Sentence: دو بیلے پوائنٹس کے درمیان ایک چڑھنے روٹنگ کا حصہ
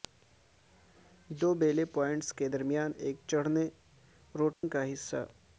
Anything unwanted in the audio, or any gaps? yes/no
yes